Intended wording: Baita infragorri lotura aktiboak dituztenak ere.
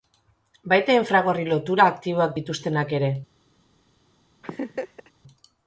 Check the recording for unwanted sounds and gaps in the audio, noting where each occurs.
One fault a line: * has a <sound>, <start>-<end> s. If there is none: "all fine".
* has a laugh, 4.4-5.1 s